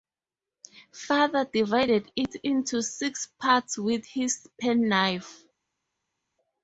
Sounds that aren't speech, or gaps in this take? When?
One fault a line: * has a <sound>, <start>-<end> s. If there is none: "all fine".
all fine